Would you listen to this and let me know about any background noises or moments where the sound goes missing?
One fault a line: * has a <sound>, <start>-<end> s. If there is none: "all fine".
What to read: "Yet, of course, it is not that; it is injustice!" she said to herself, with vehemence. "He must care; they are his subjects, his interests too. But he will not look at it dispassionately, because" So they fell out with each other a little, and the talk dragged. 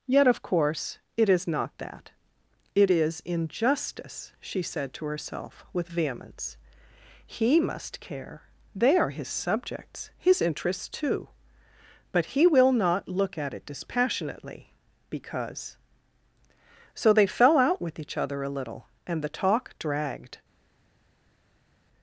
all fine